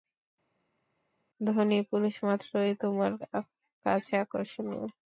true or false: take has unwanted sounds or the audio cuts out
false